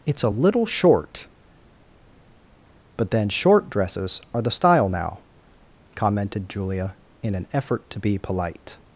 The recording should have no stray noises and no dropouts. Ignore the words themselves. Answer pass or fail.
pass